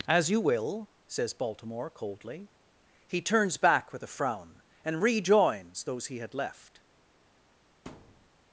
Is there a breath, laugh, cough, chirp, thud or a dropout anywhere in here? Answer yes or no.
yes